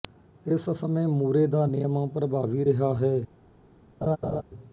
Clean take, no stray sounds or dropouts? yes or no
no